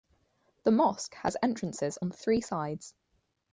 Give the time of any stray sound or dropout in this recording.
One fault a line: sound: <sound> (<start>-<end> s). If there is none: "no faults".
no faults